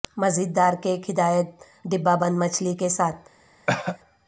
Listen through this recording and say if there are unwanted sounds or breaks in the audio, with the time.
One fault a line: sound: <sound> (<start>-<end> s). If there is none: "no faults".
sound: cough (3.7-4.0 s)